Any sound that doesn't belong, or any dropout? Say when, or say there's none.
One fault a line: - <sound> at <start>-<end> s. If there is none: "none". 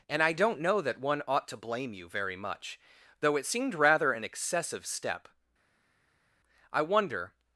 none